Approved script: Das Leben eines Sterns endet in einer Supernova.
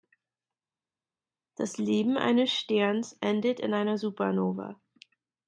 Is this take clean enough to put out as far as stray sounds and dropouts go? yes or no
yes